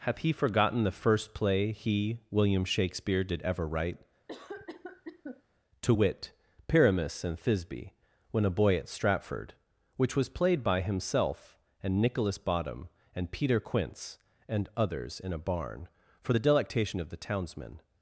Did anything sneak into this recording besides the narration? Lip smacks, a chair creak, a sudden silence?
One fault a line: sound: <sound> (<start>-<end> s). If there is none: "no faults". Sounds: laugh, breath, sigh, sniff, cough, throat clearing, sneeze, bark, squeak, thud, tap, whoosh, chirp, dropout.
sound: cough (4.3-5.4 s)